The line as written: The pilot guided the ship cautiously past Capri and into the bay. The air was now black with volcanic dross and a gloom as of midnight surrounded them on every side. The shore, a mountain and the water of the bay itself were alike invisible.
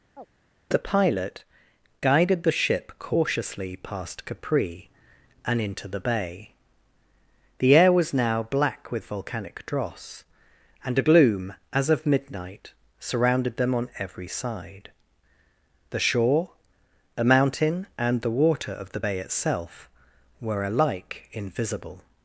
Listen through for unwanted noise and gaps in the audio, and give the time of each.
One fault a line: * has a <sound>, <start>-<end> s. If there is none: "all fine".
* has a chirp, 0.2-0.3 s